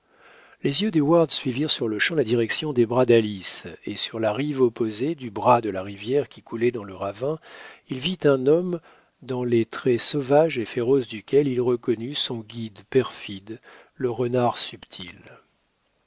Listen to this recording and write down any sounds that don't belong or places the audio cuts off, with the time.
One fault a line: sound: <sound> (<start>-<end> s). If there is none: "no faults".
no faults